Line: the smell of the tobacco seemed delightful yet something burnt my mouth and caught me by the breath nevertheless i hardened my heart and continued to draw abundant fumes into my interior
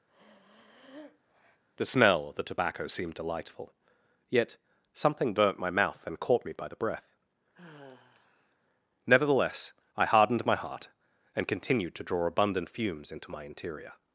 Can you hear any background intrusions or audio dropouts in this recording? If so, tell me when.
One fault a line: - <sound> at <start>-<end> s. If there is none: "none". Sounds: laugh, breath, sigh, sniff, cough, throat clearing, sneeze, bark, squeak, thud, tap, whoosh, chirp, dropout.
- breath at 0.1-1.6 s
- sigh at 7.5-8.6 s